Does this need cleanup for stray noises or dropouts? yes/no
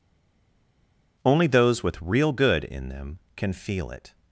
no